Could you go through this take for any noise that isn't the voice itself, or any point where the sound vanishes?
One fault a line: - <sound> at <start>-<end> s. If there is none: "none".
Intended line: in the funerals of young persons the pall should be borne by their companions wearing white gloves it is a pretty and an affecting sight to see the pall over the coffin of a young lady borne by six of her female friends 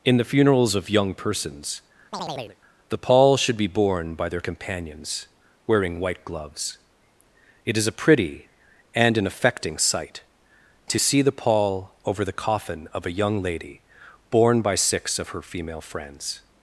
- chirp at 2.1-2.6 s